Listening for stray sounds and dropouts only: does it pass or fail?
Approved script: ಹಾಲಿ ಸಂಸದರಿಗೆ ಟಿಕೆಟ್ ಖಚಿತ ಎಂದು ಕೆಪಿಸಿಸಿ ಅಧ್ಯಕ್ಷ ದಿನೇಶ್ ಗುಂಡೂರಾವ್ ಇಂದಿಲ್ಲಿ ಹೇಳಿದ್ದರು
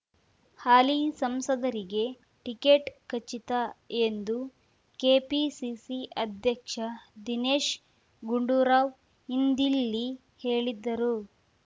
pass